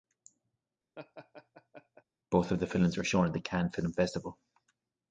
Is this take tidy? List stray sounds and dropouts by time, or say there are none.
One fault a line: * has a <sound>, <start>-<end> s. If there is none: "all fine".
* has a laugh, 1.0-2.0 s